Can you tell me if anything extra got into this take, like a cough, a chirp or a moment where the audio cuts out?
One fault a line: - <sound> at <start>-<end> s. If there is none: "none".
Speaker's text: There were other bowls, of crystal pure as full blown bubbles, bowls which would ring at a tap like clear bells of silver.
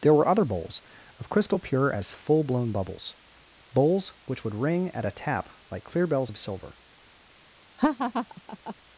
- laugh at 7.8-8.7 s